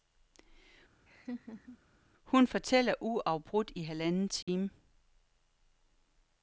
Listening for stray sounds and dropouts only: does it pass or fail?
fail